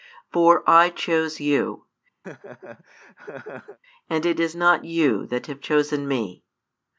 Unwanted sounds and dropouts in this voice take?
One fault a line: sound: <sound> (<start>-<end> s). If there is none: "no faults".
sound: laugh (2.2-3.8 s)